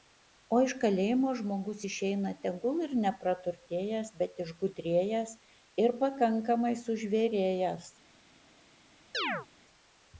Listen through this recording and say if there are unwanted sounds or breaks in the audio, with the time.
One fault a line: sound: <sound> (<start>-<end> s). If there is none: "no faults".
sound: chirp (9.1-9.5 s)